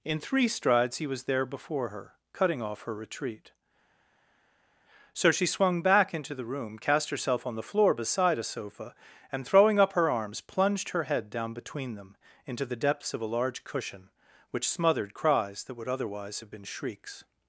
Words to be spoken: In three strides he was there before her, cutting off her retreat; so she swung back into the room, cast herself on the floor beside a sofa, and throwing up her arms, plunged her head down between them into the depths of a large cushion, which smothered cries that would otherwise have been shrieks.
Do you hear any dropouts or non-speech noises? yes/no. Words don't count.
no